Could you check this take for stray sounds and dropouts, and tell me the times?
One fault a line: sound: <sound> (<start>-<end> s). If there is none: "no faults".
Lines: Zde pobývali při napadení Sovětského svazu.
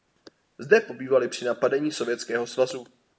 no faults